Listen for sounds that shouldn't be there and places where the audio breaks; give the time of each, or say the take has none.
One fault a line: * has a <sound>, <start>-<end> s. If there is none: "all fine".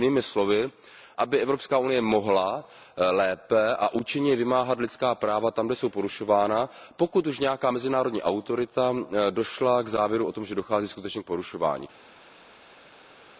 all fine